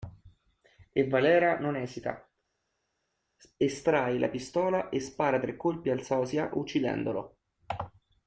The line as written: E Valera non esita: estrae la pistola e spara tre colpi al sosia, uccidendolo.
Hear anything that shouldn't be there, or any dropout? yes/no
no